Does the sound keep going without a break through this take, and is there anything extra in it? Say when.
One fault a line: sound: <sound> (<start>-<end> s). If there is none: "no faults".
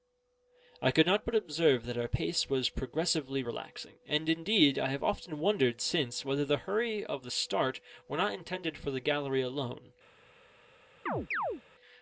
sound: chirp (11.1-11.6 s)